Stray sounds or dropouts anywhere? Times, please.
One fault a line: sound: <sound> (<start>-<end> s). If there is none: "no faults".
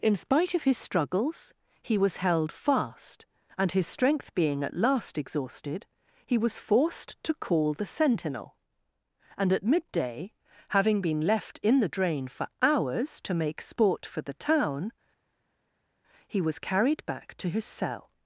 no faults